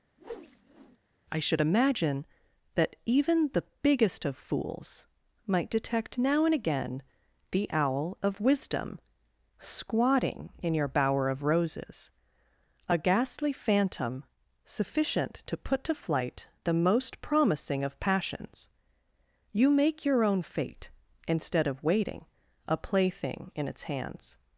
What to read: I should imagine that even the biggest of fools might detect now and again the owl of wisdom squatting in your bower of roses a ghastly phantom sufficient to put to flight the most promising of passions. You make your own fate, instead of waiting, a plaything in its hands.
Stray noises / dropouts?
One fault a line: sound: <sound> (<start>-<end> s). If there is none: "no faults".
sound: whoosh (0.2-1.0 s)